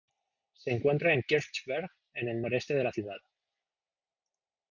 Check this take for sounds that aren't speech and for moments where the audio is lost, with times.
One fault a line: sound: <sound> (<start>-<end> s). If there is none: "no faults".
no faults